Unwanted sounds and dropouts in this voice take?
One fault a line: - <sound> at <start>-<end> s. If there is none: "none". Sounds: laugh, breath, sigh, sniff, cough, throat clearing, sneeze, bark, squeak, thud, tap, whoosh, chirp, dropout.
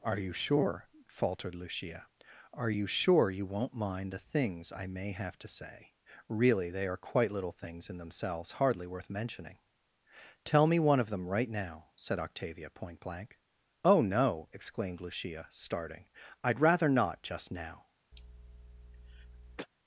- cough at 18.1-19.7 s